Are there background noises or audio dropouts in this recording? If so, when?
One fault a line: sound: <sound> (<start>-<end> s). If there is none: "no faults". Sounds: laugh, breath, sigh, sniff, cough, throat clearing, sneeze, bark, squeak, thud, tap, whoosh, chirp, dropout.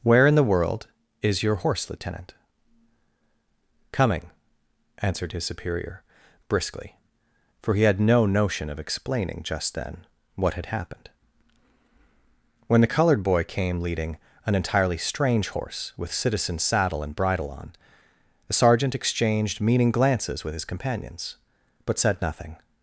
no faults